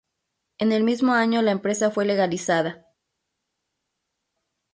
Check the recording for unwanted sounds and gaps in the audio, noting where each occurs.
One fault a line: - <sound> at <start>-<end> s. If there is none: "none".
none